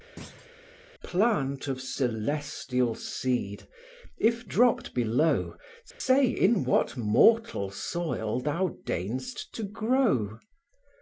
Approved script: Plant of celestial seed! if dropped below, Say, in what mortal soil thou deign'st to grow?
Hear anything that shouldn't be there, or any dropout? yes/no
yes